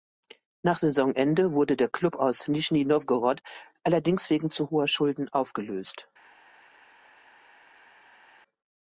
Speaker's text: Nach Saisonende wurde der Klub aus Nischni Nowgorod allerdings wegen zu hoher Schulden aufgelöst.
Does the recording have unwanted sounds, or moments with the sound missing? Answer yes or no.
no